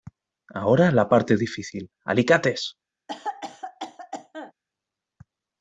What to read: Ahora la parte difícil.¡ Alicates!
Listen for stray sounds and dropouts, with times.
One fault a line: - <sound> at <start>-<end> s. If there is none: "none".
- cough at 3.1-4.5 s